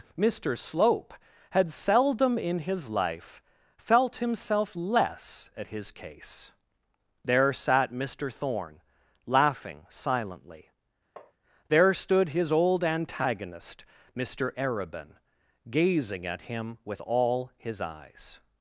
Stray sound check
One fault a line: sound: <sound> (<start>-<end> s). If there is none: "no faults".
sound: tap (11.2-11.3 s)